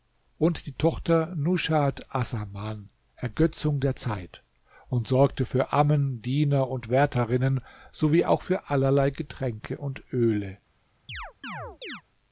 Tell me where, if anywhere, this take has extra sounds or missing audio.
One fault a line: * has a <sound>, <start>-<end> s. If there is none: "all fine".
* has a chirp, 11.1-12.0 s